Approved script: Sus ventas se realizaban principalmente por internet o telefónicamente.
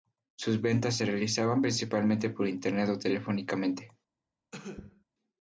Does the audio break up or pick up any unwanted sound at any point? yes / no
yes